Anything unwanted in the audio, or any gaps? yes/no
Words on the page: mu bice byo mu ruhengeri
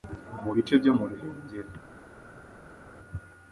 no